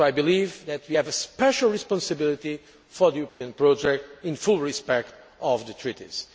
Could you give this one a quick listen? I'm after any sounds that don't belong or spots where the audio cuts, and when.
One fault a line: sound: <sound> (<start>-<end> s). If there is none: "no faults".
sound: dropout (3.3-3.4 s)